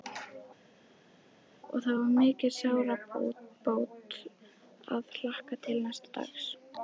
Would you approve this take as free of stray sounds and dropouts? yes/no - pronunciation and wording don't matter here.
yes